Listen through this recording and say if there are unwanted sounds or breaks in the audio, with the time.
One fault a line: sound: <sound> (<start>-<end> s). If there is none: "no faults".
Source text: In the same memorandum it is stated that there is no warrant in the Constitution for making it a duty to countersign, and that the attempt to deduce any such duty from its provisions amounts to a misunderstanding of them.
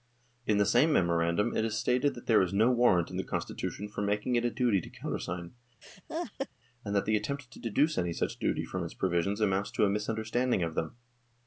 sound: laugh (5.8-6.5 s)